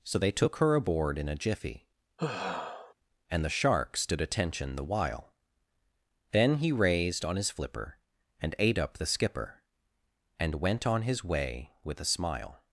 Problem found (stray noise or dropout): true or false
true